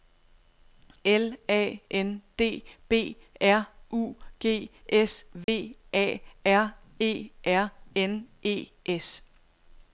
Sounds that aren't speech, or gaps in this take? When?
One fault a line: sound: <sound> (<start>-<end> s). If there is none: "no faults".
sound: dropout (5.4-5.5 s)